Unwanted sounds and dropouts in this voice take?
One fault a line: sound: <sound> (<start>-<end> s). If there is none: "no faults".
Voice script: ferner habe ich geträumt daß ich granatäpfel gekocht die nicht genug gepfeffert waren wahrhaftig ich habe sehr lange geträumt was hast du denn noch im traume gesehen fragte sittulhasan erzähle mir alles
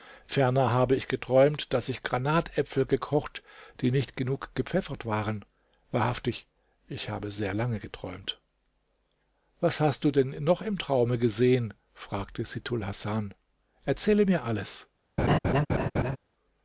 sound: laugh (15.2-16.2 s)